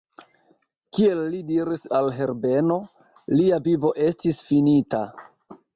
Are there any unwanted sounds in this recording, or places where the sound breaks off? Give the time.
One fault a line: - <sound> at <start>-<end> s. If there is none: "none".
none